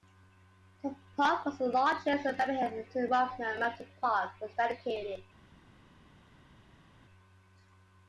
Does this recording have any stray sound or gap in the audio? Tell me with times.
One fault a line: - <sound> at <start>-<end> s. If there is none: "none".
none